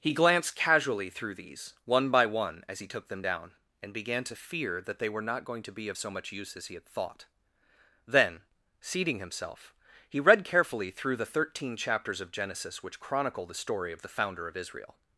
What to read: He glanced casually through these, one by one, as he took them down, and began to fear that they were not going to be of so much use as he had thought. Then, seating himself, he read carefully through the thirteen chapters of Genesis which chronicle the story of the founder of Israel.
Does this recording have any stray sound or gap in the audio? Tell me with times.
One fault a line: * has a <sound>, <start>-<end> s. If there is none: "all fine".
all fine